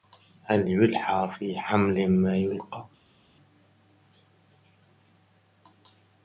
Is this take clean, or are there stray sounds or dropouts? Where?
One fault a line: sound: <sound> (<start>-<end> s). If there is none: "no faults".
no faults